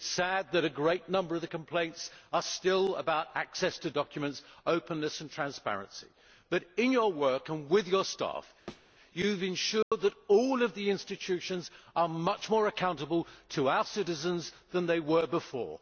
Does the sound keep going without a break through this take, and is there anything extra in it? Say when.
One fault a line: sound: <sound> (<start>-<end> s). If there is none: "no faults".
sound: thud (8.7-8.9 s)
sound: dropout (9.8-9.9 s)